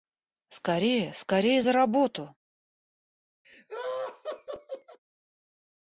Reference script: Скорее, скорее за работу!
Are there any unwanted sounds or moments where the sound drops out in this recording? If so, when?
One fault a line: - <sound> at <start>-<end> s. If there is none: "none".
- laugh at 3.4-5.0 s